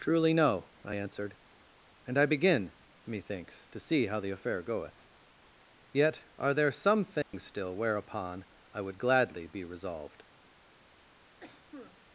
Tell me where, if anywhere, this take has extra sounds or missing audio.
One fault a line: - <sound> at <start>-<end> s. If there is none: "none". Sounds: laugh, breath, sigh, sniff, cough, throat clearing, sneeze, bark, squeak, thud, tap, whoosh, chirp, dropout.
- dropout at 7.2-7.3 s
- cough at 11.4-12.0 s